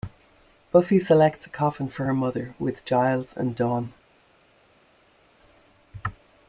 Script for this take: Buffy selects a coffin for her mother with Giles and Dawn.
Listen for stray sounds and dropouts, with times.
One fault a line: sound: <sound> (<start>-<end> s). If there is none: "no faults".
no faults